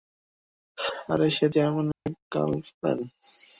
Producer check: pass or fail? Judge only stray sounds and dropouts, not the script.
fail